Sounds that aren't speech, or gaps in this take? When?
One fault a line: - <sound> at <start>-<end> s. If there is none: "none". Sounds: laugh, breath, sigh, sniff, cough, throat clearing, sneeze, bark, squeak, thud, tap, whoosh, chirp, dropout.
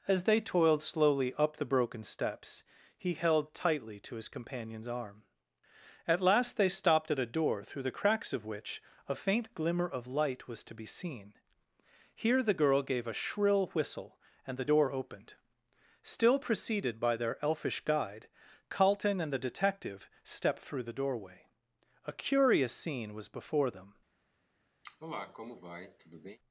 - cough at 24.8-26.4 s